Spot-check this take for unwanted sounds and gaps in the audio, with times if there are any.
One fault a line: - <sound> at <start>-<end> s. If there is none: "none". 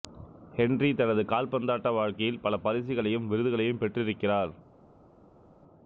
none